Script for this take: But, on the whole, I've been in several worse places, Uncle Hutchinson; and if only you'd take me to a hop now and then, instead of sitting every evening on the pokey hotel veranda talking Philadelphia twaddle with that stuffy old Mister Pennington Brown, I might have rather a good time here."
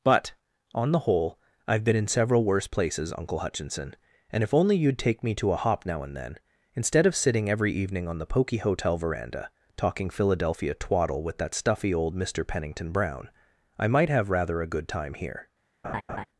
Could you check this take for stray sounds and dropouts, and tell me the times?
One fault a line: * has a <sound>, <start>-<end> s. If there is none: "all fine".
* has a laugh, 15.8-16.2 s